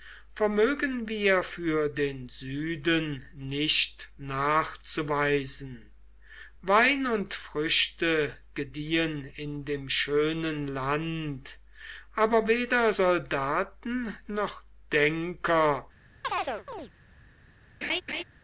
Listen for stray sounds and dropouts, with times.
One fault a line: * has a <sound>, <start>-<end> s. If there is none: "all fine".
* has a chirp, 16.2-16.9 s
* has a laugh, 17.8-18.2 s